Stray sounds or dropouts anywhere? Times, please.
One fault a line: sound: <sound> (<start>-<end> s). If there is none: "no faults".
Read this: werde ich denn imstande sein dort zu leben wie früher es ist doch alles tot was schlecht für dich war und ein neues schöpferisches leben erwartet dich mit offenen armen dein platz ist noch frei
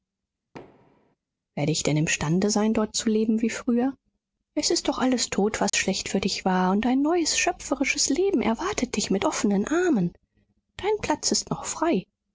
sound: thud (0.5-1.2 s)
sound: dropout (5.7-5.7 s)